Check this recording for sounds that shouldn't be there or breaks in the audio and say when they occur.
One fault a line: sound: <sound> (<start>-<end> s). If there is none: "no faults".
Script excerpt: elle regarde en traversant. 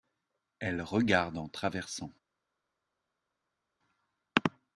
no faults